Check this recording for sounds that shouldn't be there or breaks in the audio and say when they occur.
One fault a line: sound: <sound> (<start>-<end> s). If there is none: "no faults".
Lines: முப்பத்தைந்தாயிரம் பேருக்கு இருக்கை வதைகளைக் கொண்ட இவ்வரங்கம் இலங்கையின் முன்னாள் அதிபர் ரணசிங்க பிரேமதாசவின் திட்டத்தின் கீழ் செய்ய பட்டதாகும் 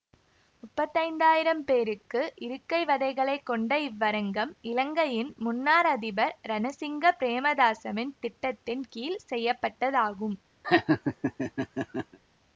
sound: laugh (10.6-12.2 s)